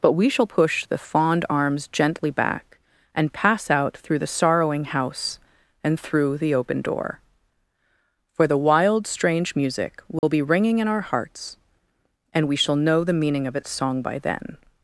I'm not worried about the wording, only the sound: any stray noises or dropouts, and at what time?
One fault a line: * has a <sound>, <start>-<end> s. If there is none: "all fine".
* has a dropout, 10.2-10.2 s